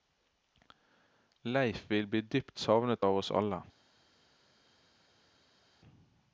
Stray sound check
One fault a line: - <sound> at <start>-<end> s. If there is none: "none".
none